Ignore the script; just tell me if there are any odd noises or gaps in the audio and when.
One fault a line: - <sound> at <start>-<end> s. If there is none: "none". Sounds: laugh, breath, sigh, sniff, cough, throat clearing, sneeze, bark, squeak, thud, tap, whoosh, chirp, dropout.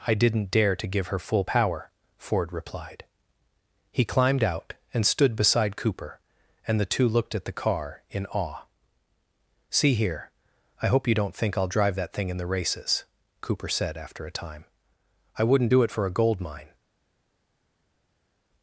none